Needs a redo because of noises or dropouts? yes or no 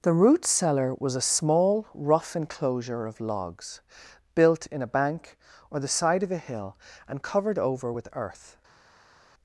no